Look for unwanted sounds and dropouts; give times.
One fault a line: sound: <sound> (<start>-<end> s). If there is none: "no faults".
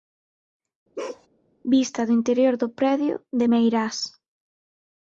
sound: bark (1.0-1.3 s)